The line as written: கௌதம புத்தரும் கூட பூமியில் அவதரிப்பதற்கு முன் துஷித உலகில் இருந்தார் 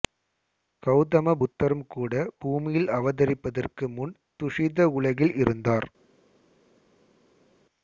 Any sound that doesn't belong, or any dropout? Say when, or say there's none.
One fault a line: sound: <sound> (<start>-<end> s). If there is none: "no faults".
no faults